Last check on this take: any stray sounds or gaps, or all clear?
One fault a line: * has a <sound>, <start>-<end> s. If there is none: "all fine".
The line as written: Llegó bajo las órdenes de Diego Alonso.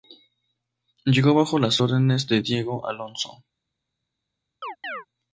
* has a chirp, 4.6-5.1 s